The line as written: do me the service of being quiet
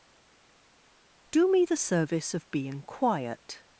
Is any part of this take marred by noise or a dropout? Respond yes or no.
no